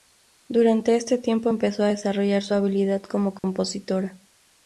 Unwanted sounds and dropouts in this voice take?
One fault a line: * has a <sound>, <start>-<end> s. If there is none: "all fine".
* has a dropout, 3.4-3.4 s